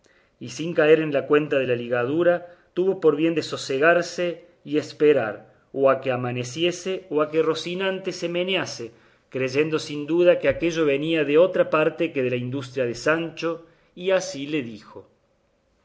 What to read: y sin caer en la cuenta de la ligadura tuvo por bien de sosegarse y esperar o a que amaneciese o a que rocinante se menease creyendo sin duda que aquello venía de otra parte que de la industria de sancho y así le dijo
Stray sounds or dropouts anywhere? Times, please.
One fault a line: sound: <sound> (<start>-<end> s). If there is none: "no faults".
no faults